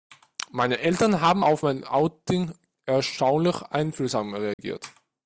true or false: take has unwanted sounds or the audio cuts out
true